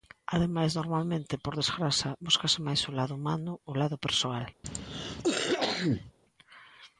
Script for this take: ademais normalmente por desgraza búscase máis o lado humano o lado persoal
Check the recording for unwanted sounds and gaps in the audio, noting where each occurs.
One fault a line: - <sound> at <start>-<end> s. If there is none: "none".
- cough at 4.6-6.1 s